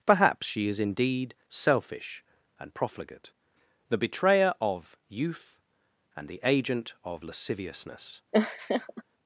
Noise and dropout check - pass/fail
fail